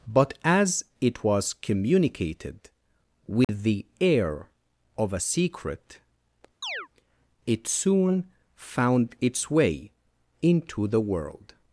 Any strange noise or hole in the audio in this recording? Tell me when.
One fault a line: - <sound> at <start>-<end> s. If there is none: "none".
- dropout at 3.4-3.5 s
- chirp at 6.6-6.9 s